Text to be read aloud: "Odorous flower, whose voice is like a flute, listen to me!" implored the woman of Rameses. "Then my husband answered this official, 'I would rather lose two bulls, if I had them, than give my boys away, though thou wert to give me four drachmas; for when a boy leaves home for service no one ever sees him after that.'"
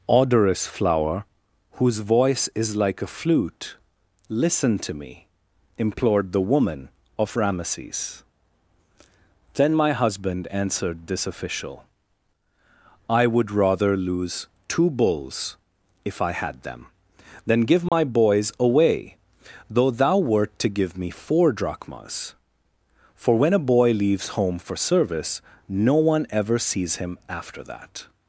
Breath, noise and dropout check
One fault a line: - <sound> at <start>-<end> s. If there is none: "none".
- dropout at 17.9-17.9 s